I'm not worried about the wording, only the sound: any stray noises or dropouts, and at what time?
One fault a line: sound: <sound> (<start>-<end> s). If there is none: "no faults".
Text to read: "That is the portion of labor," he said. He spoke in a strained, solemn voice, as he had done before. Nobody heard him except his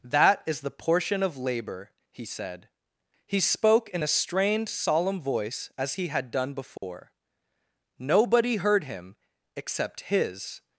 sound: dropout (6.8-6.8 s)